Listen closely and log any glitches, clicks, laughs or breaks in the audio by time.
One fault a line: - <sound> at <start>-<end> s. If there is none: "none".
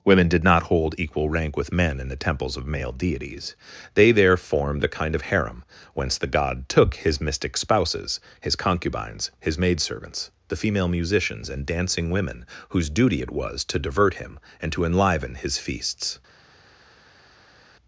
none